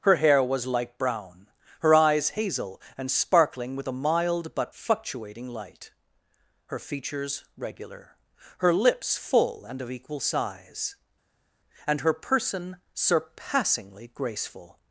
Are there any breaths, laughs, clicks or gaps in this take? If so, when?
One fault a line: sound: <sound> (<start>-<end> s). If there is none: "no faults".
no faults